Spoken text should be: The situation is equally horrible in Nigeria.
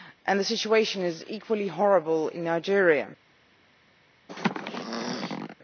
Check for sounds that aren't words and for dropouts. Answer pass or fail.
fail